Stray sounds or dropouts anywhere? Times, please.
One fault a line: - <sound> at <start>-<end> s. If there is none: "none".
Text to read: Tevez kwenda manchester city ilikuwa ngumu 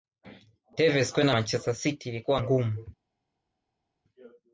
none